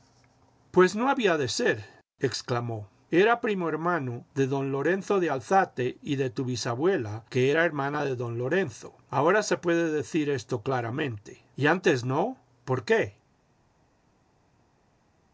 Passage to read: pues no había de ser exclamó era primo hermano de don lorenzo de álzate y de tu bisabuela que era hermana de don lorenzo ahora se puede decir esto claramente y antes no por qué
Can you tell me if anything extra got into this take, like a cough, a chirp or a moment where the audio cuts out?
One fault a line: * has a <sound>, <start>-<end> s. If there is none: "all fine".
all fine